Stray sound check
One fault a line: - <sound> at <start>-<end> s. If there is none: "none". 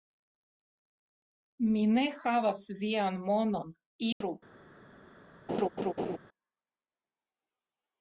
- dropout at 4.1-4.2 s
- laugh at 5.5-6.2 s